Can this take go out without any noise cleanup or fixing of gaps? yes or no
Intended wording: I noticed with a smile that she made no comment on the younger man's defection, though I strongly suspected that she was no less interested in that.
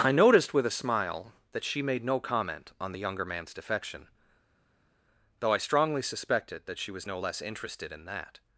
yes